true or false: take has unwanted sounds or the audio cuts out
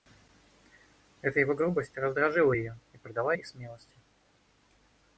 false